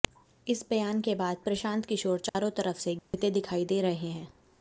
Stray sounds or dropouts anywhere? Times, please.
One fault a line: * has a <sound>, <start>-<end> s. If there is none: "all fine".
* has a dropout, 2.3-2.4 s
* has a dropout, 3.0-3.1 s